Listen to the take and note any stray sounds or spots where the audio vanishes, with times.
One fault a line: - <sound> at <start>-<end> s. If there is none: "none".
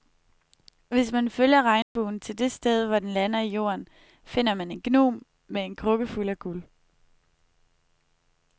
- dropout at 1.8-2.0 s